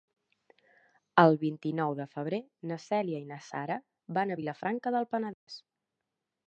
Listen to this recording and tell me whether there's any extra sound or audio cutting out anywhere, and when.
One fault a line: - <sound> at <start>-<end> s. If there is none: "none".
- dropout at 5.3-5.5 s